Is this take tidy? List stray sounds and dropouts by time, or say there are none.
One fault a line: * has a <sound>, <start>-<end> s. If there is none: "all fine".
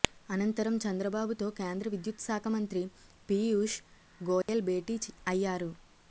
* has a dropout, 4.4-4.5 s